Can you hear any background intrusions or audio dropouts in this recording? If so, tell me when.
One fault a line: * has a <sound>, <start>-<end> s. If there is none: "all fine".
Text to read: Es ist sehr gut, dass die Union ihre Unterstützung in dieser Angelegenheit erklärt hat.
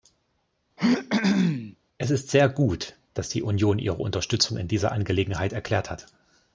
* has a throat clearing, 0.8-1.8 s